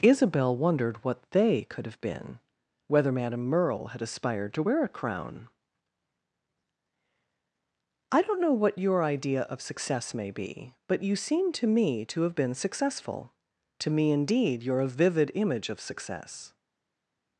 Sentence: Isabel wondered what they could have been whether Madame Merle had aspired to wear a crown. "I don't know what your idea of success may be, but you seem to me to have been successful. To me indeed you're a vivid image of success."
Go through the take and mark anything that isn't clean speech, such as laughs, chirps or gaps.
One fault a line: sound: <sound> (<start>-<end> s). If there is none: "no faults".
no faults